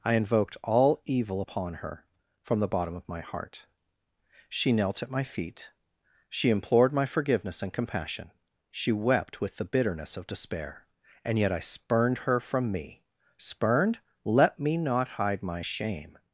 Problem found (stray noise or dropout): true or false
false